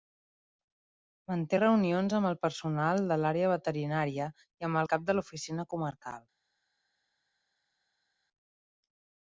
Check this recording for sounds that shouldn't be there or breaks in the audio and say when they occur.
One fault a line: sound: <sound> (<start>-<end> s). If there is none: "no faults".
no faults